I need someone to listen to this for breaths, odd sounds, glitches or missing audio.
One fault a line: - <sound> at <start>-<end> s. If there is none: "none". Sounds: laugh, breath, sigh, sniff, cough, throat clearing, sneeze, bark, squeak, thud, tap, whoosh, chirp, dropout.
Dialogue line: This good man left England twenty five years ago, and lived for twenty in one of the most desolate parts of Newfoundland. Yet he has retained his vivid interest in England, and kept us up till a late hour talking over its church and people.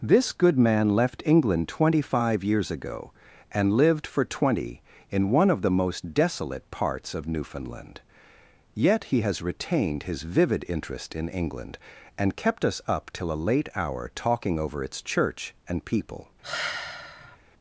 - sigh at 16.4-17.4 s